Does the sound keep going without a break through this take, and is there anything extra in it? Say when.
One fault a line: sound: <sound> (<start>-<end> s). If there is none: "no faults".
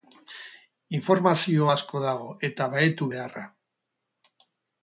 no faults